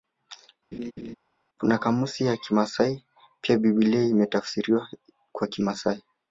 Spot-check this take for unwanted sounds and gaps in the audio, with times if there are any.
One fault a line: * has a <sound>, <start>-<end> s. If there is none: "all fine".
* has a laugh, 0.7-1.2 s